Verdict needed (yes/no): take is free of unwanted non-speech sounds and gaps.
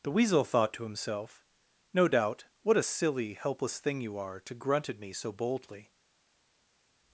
yes